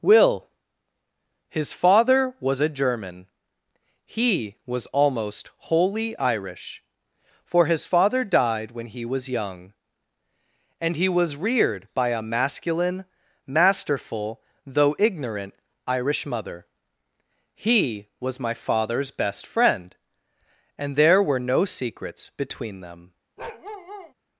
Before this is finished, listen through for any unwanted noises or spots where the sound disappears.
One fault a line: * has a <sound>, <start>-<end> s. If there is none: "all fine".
* has a bark, 23.4-24.1 s